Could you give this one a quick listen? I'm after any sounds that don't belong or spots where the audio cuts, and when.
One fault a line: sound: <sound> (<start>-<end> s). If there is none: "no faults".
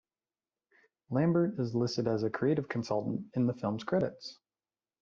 no faults